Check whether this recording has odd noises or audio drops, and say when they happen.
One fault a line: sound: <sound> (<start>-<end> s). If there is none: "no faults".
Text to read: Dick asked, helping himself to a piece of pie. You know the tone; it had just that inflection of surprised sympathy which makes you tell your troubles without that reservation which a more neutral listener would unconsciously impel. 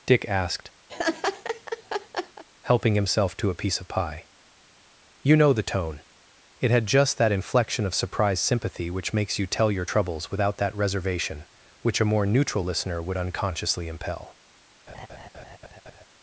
sound: laugh (0.9-2.4 s)
sound: laugh (14.9-16.0 s)